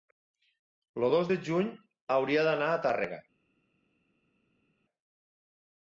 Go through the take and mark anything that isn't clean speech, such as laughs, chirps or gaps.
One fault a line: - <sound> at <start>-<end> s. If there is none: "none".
none